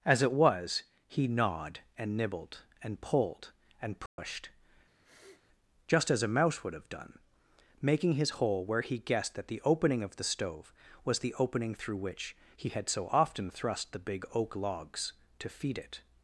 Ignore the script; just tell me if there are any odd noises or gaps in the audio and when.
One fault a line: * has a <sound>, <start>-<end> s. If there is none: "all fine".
* has a dropout, 4.1-4.2 s
* has a sniff, 5.0-5.5 s